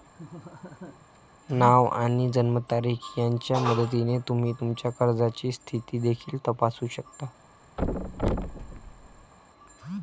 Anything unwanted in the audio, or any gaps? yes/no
yes